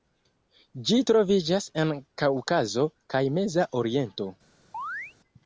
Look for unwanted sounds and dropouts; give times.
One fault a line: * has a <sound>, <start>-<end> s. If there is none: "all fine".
* has a chirp, 4.7-5.1 s